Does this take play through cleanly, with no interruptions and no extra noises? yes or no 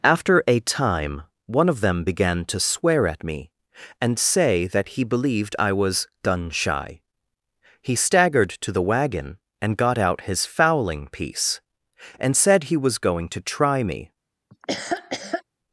no